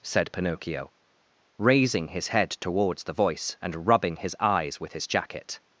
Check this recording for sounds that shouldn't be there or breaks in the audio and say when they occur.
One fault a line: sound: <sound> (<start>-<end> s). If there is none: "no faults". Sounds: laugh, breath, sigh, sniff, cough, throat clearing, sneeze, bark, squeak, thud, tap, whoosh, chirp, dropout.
no faults